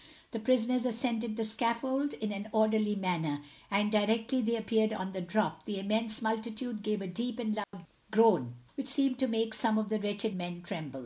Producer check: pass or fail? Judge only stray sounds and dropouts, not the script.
fail